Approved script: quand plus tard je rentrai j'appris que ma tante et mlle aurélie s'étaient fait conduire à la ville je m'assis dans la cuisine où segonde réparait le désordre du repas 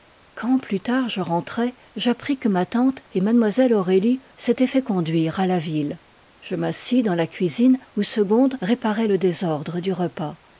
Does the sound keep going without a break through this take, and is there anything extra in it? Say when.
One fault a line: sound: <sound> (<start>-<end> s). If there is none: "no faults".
no faults